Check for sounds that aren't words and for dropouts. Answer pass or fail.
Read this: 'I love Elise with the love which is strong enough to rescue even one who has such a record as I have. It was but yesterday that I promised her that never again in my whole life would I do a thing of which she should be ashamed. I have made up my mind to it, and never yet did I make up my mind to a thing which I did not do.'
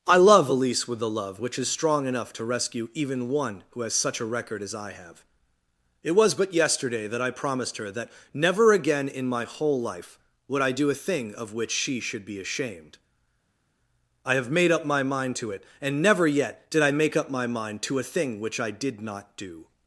pass